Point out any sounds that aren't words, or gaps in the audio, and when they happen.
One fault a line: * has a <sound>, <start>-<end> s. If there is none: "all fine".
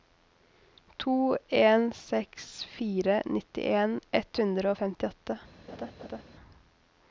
* has a laugh, 5.7-6.2 s